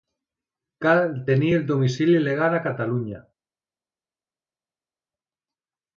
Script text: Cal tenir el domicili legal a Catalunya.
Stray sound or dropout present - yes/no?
no